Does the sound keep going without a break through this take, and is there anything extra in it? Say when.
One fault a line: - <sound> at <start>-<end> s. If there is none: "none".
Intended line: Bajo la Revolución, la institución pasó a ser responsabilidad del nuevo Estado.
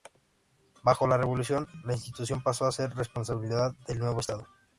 none